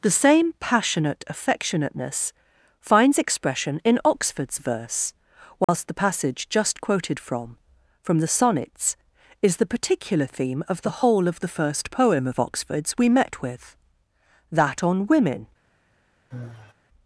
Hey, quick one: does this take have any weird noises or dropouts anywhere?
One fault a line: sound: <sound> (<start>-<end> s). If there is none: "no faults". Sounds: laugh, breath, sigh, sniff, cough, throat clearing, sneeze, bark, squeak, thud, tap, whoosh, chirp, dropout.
sound: dropout (5.6-5.7 s)
sound: sigh (16.3-16.7 s)